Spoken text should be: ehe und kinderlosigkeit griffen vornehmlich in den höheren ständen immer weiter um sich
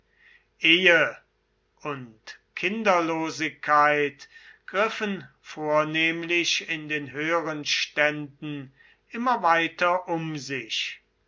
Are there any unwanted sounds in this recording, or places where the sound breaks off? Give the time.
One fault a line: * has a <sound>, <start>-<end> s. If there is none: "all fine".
all fine